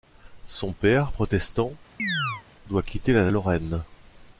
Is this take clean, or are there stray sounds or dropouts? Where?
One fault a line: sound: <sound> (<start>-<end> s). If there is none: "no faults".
sound: chirp (2.0-2.4 s)